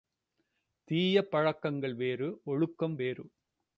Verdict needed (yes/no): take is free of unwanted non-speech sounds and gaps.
yes